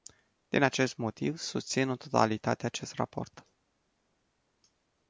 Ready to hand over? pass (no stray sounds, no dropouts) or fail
pass